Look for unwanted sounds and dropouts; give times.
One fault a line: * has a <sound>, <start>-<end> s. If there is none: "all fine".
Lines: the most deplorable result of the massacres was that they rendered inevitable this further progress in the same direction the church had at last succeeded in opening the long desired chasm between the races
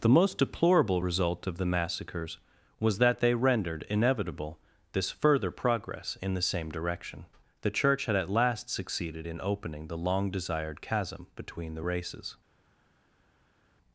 all fine